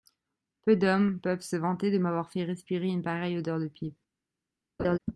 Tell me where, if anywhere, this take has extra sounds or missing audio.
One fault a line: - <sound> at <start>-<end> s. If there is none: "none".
- laugh at 4.8-5.0 s